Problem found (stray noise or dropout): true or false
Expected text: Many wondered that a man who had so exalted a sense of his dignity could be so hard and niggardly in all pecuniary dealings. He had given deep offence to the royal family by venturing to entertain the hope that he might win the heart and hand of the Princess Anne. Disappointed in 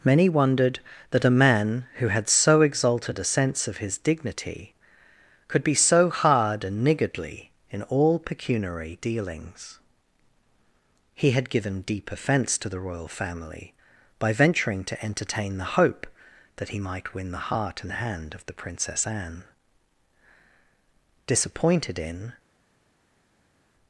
false